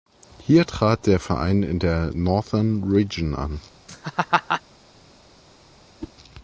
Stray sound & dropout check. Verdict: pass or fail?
fail